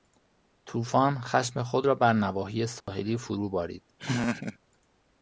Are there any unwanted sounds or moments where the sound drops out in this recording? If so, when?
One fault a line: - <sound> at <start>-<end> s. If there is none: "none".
- dropout at 2.8-2.9 s
- laugh at 4.0-4.6 s